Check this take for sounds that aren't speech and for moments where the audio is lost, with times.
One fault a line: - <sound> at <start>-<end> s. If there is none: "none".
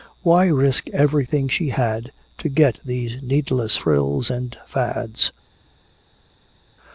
none